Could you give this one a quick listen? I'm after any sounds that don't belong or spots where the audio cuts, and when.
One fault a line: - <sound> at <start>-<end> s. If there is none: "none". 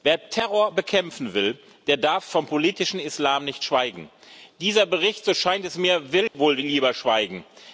- dropout at 6.3-6.3 s